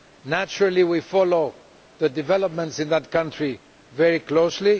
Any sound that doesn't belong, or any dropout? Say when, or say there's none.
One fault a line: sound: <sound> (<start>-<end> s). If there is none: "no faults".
no faults